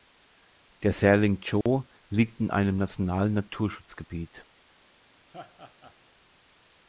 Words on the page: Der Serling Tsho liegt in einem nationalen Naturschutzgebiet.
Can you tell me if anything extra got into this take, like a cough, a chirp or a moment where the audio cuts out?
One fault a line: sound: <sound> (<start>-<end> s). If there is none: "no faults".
sound: dropout (1.6-1.7 s)
sound: laugh (5.3-6.0 s)